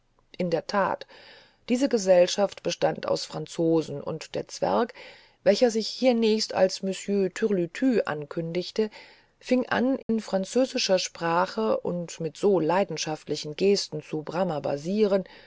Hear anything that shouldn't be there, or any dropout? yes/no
yes